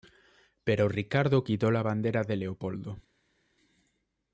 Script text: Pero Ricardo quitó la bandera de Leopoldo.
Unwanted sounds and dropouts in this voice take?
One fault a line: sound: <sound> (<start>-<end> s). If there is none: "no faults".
no faults